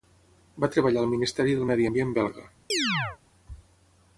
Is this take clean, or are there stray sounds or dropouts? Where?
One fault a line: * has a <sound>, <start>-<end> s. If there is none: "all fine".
* has a chirp, 2.7-3.2 s